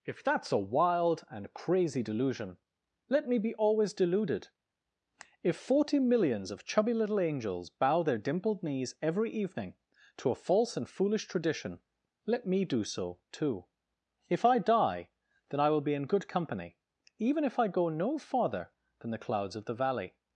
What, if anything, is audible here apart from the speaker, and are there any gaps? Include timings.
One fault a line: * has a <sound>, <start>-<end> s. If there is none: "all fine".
all fine